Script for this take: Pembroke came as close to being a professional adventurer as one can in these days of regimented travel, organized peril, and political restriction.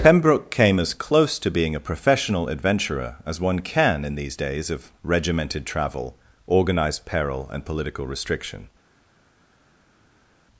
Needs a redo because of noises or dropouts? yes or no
no